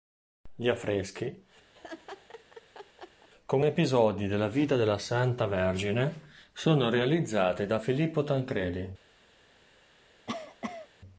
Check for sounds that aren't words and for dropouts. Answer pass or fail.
fail